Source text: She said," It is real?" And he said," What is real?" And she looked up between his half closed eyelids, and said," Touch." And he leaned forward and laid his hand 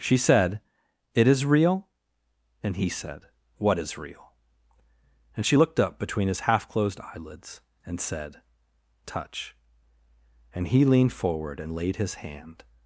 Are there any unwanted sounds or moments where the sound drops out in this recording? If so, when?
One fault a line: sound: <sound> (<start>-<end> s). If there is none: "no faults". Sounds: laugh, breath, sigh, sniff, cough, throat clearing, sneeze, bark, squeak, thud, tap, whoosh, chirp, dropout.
no faults